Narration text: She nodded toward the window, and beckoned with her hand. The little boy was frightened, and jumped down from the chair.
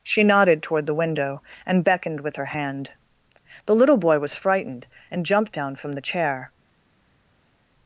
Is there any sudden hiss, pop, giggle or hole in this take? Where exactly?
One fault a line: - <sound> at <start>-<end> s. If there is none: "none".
none